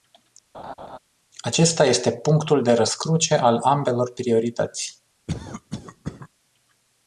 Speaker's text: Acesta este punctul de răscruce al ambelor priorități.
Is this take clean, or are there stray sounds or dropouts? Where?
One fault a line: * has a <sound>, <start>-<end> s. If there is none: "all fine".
* has a laugh, 0.5-1.0 s
* has a cough, 5.3-6.3 s